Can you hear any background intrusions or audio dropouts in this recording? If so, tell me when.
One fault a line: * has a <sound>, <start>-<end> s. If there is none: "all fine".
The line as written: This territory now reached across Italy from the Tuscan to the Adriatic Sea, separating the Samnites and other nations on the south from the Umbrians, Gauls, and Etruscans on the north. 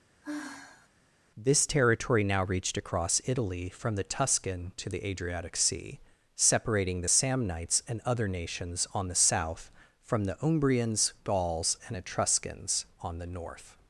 * has a sigh, 0.2-0.9 s